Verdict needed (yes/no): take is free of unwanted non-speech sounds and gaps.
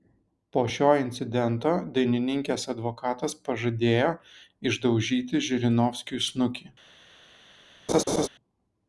no